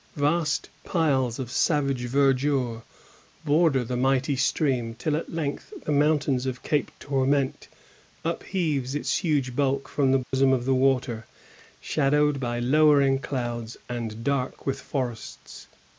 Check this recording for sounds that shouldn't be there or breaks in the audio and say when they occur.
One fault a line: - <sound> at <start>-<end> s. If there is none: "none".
- dropout at 10.2-10.3 s